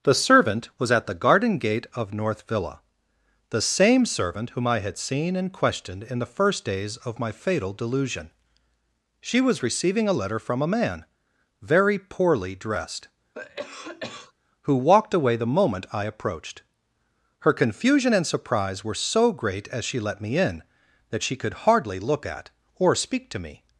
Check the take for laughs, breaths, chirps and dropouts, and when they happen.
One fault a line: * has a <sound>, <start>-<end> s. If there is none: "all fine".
* has a cough, 13.3-14.3 s